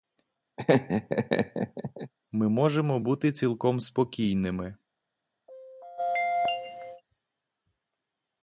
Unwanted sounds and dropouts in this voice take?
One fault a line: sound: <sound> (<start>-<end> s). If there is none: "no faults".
sound: laugh (0.6-2.1 s)
sound: throat clearing (5.5-7.0 s)